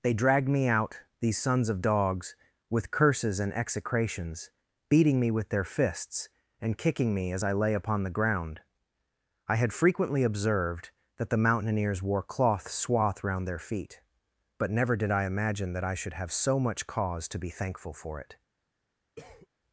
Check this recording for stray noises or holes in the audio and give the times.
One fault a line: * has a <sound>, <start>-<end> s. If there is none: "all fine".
* has a cough, 19.2-19.5 s